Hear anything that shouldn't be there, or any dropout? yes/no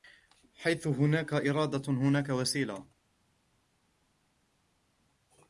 no